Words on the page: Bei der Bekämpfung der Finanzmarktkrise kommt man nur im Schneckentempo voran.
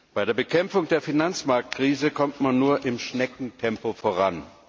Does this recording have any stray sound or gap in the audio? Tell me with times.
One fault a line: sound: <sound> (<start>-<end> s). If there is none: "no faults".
no faults